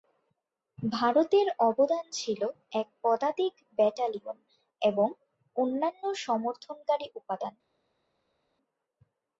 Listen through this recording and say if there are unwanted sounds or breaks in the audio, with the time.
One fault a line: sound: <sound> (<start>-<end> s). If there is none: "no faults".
no faults